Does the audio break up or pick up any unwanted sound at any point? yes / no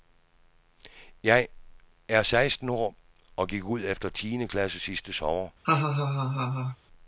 yes